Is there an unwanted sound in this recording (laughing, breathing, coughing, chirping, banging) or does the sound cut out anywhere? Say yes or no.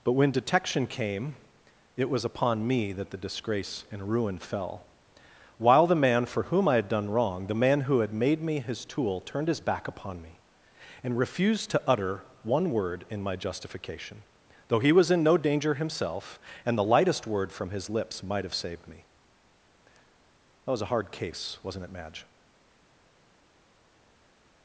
no